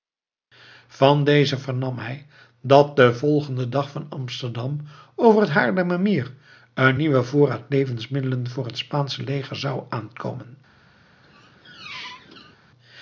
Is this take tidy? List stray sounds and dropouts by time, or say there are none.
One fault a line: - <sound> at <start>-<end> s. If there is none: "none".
- squeak at 11.2-12.6 s